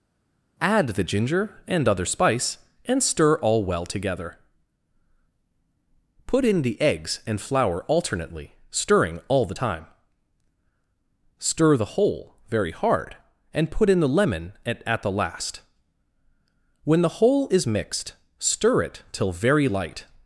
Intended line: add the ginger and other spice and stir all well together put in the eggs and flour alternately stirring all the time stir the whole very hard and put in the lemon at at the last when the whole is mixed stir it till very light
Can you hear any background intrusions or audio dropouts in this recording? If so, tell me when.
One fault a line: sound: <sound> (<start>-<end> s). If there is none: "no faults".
no faults